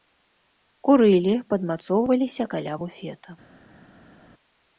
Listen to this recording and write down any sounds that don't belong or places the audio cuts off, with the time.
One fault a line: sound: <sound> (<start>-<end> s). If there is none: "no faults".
no faults